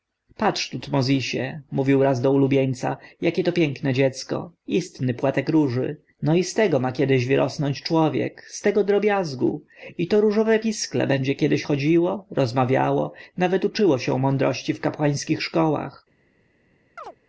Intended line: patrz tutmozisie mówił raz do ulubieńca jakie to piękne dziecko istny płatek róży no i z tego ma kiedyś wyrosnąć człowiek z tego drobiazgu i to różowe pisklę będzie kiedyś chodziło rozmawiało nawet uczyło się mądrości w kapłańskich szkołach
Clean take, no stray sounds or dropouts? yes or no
no